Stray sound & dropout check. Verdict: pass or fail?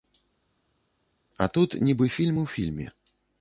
pass